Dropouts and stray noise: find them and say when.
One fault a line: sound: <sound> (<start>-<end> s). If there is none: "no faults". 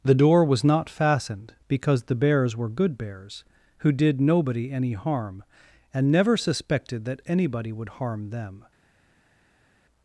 no faults